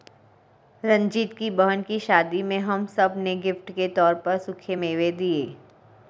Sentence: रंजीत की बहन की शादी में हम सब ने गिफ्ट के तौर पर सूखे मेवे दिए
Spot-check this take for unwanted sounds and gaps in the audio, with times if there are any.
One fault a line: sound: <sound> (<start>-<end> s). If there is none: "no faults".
no faults